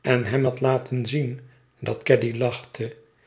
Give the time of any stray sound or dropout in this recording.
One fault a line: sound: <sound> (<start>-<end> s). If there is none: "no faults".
no faults